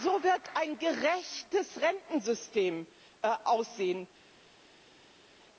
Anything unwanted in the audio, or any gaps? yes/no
no